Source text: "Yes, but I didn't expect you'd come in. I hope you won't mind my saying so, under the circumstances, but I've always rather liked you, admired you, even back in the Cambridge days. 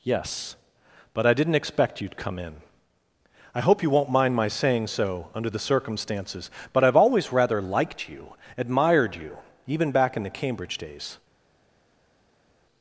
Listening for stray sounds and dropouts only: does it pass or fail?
pass